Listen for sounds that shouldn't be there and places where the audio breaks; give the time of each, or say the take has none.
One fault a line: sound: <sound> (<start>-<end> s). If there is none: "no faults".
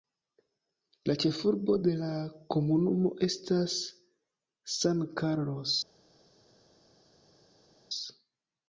no faults